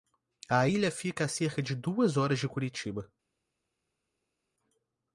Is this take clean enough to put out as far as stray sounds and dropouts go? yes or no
yes